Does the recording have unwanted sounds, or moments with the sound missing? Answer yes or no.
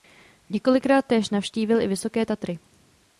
no